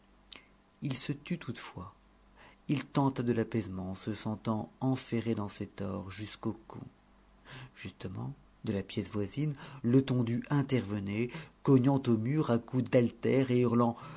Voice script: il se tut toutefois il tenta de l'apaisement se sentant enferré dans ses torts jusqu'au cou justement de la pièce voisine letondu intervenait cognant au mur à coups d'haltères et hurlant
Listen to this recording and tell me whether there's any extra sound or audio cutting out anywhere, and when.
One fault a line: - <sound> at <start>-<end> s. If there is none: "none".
none